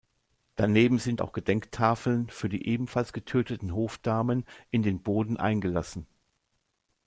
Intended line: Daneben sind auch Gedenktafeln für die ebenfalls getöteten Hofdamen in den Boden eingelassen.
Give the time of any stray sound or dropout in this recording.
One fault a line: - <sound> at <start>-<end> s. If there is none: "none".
none